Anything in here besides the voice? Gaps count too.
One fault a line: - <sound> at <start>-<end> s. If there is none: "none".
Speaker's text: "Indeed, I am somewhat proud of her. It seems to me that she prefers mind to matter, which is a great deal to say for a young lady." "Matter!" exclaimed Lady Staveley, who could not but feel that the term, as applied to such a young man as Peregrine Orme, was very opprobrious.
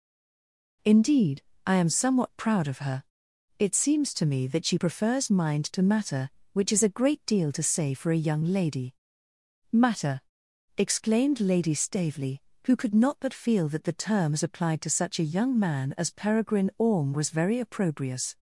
none